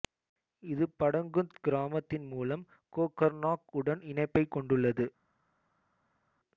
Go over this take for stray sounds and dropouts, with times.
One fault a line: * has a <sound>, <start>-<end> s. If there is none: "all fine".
all fine